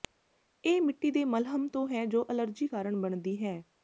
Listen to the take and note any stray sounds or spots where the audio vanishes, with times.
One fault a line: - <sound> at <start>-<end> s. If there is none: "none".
none